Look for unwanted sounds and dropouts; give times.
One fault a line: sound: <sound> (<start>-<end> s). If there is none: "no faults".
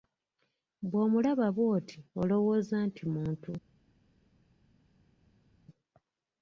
no faults